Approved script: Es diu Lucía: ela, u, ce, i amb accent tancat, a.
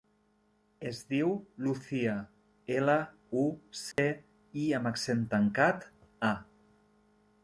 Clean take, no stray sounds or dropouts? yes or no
no